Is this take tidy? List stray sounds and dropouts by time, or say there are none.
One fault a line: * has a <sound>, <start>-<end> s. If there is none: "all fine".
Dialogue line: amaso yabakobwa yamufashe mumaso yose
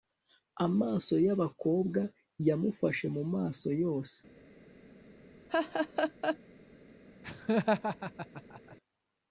* has a laugh, 5.5-6.4 s
* has a laugh, 7.2-8.8 s